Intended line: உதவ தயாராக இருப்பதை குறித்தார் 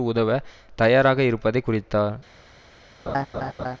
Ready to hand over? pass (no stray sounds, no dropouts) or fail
fail